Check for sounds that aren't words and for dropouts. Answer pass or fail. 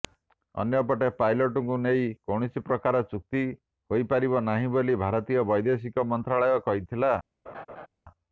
fail